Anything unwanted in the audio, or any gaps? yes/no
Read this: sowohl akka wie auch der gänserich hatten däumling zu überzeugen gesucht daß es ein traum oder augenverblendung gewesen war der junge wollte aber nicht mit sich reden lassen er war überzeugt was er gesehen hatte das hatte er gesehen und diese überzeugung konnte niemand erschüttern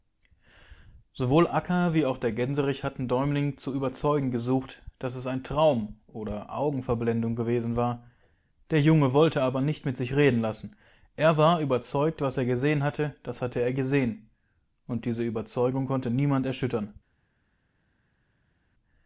no